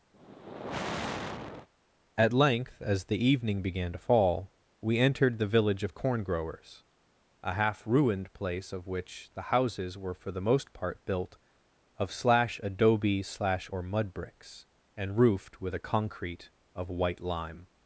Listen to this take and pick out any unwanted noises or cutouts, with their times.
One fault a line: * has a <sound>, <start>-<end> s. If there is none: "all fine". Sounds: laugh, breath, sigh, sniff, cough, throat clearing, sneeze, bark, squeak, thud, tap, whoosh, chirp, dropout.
* has a sigh, 0.1-1.7 s